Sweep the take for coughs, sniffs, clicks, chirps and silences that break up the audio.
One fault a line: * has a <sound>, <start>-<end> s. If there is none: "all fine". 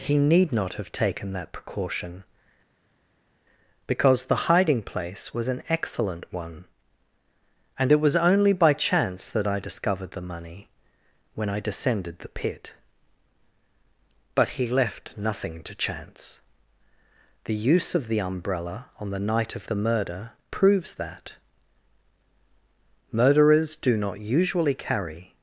all fine